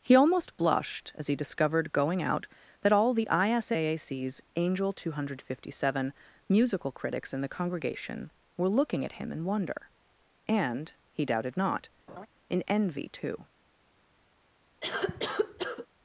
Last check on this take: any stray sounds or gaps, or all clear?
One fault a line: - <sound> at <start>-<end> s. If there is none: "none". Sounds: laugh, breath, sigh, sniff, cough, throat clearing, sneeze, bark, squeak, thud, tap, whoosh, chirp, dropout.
- laugh at 12.1-12.3 s
- cough at 14.8-15.9 s